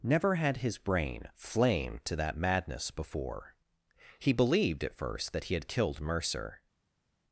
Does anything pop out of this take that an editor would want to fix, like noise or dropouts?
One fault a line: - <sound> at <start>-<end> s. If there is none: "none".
none